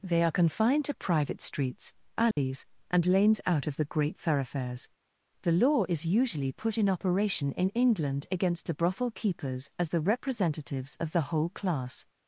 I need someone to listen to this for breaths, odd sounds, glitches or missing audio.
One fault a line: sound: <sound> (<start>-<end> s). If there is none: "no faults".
sound: dropout (2.3-2.4 s)